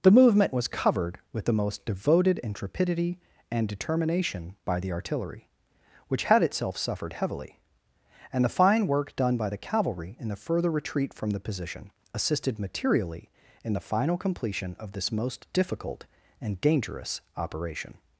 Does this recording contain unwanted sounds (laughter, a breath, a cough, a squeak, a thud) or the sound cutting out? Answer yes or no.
no